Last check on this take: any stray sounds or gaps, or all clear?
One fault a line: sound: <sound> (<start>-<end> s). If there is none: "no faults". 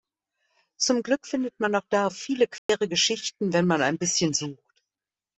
sound: dropout (2.6-2.7 s)